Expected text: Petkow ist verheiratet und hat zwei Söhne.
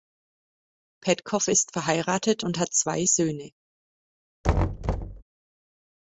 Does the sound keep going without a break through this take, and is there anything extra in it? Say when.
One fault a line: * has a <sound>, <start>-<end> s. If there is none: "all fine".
* has a thud, 4.4-5.2 s